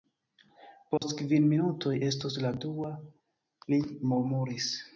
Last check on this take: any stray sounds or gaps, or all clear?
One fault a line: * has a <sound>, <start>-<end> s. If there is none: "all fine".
* has a dropout, 1.0-1.0 s